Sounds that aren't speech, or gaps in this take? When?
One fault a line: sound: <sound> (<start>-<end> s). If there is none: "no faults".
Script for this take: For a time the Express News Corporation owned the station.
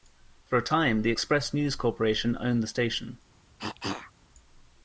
sound: cough (3.6-4.1 s)